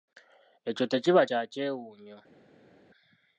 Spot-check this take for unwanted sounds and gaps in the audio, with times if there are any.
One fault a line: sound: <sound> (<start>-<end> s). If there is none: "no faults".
no faults